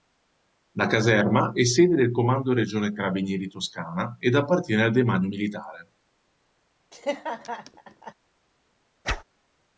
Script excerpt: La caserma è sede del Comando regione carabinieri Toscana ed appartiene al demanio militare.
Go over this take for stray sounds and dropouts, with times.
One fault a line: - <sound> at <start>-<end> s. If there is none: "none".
- laugh at 6.9-8.1 s
- whoosh at 9.0-9.2 s